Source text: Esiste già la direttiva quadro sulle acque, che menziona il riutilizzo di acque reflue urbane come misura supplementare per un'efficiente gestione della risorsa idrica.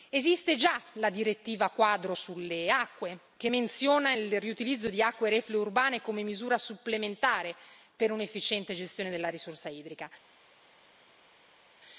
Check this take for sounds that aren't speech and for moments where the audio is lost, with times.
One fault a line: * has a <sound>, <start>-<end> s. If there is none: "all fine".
all fine